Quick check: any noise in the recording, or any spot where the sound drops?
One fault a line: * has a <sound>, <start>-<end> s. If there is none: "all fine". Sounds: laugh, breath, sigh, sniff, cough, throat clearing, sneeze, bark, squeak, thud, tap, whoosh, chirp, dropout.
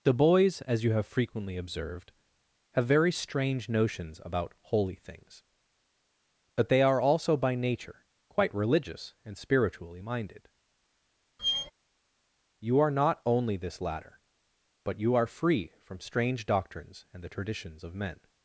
* has a squeak, 11.4-11.7 s